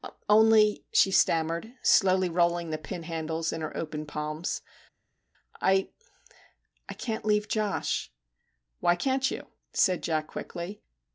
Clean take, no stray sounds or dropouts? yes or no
yes